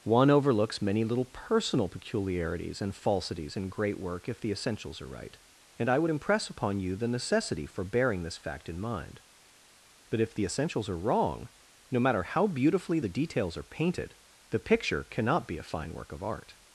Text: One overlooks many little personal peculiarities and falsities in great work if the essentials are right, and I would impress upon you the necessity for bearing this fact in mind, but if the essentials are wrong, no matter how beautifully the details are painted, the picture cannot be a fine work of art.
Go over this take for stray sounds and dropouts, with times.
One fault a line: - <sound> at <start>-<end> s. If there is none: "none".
none